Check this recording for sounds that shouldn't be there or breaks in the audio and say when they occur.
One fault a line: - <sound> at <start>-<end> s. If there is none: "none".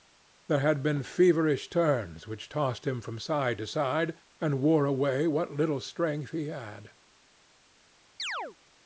- chirp at 8.2-8.6 s